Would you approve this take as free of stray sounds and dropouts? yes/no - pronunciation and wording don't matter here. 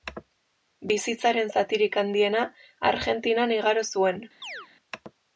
no